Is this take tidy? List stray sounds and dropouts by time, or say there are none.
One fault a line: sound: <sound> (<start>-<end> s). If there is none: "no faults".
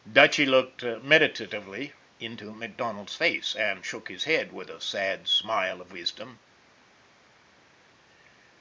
no faults